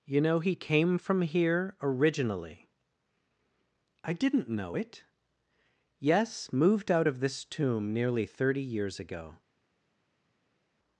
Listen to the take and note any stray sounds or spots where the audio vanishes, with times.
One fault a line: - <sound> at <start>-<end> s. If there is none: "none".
none